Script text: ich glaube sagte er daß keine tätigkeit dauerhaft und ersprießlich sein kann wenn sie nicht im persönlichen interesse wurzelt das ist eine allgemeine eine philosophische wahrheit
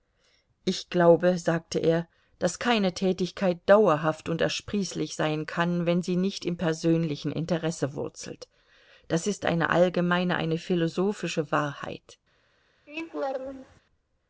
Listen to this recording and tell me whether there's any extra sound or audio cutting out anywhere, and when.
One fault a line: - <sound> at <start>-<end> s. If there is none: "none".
- laugh at 12.9-13.8 s